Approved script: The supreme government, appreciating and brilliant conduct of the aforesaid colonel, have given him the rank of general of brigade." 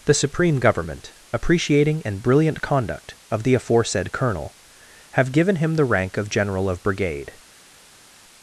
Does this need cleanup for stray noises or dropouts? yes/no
no